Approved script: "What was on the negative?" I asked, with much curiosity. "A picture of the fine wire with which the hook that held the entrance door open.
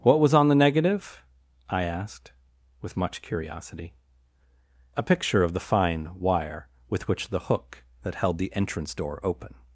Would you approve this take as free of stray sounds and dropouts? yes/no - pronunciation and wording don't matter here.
yes